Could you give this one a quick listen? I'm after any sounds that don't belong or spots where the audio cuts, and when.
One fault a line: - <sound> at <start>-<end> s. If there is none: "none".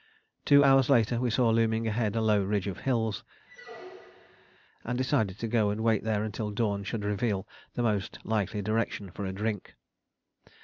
- squeak at 3.5-4.6 s